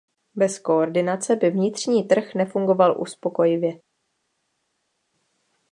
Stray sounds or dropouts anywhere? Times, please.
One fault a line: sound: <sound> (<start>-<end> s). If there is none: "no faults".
no faults